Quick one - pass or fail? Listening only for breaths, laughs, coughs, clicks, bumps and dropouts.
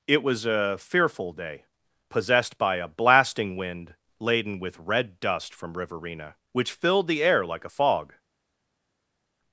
pass